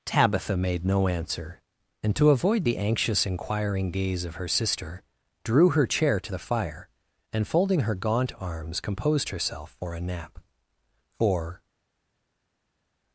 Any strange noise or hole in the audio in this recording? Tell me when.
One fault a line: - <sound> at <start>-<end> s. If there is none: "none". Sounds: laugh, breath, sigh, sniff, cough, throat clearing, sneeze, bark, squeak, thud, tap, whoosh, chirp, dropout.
none